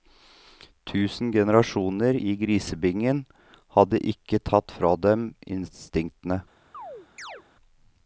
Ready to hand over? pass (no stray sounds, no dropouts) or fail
fail